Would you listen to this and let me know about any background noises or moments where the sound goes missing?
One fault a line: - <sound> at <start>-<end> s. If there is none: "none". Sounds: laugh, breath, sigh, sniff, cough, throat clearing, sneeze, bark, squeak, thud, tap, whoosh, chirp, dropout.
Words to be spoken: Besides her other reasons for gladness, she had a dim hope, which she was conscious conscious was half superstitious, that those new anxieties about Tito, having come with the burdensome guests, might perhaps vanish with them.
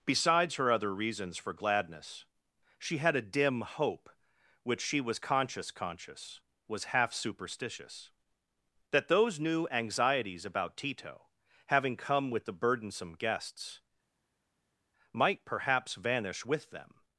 none